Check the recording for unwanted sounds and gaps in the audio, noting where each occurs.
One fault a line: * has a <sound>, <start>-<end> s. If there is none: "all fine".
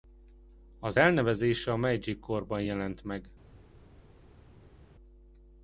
all fine